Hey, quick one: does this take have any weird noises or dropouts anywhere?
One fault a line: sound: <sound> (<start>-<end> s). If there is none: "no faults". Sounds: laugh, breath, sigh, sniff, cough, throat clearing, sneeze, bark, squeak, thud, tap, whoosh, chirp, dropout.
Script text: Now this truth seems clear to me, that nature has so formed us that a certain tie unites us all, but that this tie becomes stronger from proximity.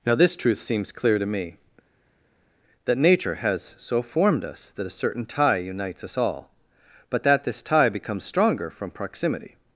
no faults